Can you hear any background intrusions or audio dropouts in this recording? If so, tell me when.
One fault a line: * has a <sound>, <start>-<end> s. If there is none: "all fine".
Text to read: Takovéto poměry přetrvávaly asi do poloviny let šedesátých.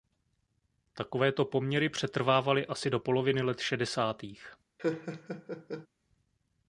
* has a laugh, 4.8-5.9 s